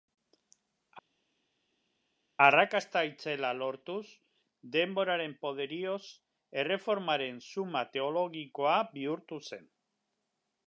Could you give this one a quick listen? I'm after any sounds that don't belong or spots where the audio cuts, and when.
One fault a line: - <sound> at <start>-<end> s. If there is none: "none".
none